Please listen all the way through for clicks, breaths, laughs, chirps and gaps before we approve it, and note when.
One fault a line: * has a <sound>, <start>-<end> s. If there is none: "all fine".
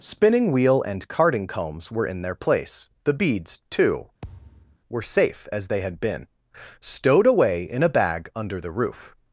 * has a thud, 4.2-4.8 s